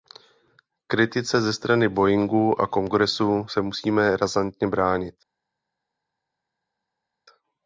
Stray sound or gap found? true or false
false